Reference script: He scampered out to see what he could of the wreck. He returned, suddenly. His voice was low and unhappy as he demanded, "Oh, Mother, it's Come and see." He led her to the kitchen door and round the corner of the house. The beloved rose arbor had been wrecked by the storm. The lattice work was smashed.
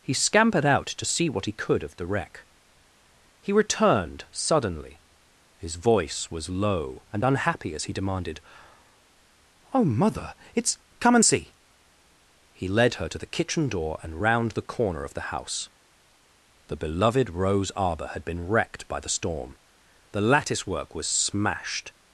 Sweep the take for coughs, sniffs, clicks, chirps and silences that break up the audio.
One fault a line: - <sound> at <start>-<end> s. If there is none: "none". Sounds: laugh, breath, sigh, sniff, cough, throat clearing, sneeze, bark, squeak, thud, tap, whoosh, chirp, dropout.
none